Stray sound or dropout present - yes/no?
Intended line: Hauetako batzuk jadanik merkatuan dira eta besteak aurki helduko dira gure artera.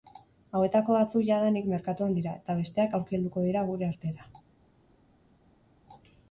no